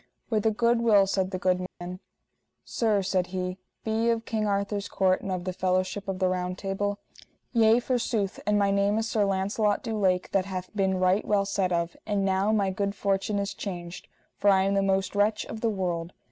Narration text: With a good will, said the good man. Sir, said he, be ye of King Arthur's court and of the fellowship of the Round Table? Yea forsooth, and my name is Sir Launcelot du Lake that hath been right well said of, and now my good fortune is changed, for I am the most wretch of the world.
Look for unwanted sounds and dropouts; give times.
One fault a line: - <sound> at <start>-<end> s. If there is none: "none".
- dropout at 1.7-1.8 s